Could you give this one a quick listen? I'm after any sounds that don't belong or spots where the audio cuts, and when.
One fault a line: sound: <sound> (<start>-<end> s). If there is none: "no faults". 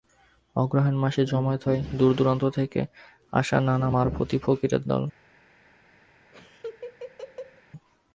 sound: laugh (6.3-7.6 s)